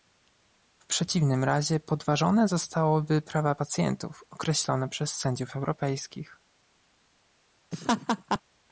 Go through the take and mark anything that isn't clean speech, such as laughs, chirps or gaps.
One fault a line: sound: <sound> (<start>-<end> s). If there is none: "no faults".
sound: laugh (7.7-8.4 s)